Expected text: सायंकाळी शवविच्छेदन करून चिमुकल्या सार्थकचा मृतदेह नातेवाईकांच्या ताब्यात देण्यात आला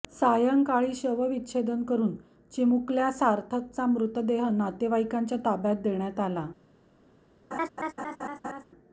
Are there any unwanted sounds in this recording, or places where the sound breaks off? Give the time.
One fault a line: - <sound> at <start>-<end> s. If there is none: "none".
- laugh at 7.5-8.6 s